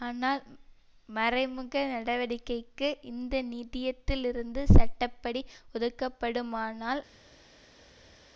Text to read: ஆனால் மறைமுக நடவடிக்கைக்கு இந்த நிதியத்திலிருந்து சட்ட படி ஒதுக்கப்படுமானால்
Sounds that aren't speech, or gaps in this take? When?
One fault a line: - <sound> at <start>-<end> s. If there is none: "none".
none